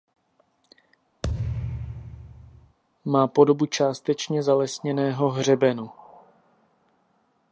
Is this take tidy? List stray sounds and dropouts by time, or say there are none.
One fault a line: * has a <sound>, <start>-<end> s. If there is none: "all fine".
* has a thud, 1.2-2.8 s